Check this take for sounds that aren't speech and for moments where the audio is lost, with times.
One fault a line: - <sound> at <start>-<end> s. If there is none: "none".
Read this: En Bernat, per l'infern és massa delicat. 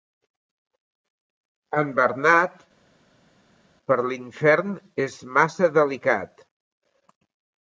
none